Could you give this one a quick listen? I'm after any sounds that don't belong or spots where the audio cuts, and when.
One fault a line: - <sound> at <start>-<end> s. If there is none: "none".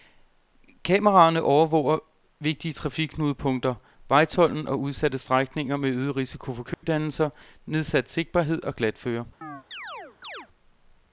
- dropout at 6.7-6.8 s
- chirp at 9.4-10.5 s